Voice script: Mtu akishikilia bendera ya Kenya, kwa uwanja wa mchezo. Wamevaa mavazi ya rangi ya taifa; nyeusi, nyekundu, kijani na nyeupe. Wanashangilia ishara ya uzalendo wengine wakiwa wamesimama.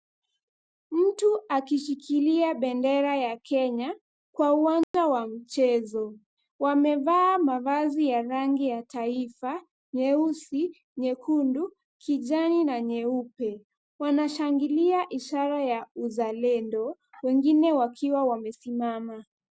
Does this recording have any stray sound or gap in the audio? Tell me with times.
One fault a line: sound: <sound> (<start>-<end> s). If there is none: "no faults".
sound: dropout (4.8-4.9 s)